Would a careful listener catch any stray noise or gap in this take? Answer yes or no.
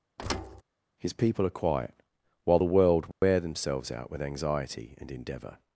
yes